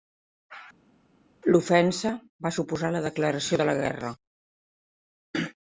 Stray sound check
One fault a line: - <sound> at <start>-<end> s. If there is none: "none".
none